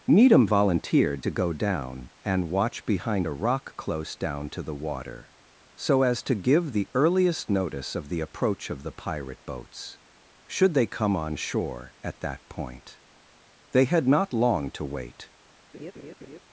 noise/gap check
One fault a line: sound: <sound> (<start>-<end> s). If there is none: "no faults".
sound: laugh (15.7-16.4 s)